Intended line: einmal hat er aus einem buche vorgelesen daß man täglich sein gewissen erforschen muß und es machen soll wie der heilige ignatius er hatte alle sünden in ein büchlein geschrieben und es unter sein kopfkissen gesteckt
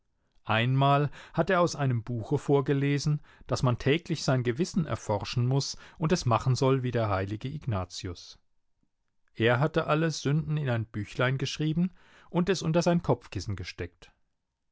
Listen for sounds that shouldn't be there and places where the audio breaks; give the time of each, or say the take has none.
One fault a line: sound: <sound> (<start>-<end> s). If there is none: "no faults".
no faults